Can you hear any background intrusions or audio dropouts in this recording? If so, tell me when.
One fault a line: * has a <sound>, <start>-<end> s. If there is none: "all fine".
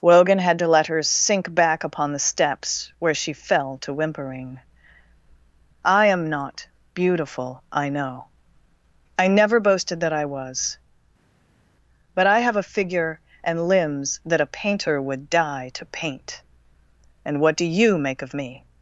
all fine